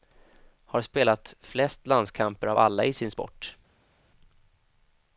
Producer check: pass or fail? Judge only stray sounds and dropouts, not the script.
pass